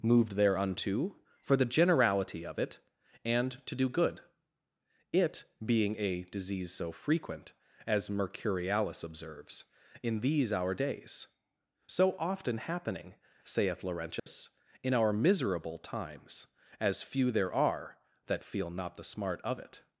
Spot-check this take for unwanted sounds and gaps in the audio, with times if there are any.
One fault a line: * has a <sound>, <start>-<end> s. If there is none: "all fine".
* has a dropout, 14.2-14.3 s